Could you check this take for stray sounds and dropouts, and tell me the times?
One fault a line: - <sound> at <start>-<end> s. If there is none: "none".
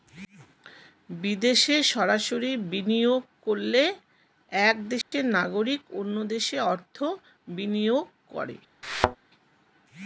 - dropout at 5.0-5.1 s
- thud at 8.8-9.2 s